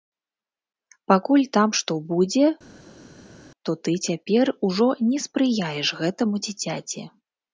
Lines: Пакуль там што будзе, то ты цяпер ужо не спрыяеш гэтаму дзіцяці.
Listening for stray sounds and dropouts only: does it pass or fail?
pass